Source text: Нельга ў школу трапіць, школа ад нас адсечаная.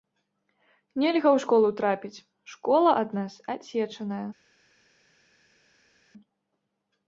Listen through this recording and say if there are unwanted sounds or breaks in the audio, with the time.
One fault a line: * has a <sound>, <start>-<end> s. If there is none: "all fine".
all fine